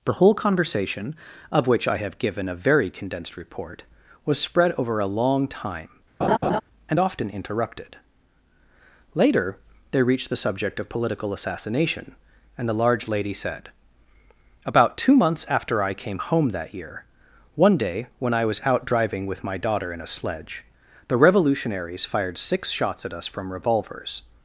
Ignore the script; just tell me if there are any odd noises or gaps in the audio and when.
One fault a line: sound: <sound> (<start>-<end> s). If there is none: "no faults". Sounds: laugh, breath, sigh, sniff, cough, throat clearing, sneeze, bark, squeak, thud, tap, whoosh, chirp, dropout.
sound: laugh (6.2-6.6 s)